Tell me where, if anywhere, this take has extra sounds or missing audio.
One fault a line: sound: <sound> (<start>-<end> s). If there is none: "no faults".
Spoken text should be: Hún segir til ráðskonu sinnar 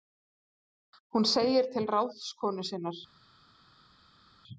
no faults